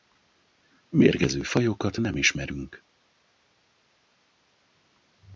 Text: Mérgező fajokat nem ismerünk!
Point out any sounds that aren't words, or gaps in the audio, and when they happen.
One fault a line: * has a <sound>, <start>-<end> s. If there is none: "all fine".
all fine